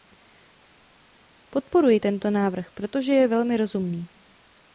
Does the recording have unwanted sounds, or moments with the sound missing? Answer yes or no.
no